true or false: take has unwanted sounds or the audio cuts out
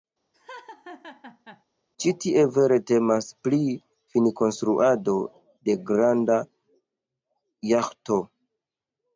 true